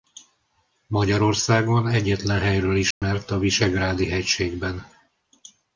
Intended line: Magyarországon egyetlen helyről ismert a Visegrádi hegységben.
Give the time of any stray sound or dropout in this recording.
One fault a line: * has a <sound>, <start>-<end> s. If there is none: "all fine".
* has a dropout, 2.9-3.0 s